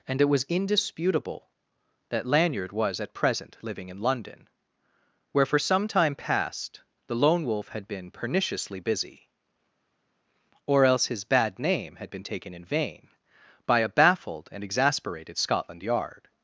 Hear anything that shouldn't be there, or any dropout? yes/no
no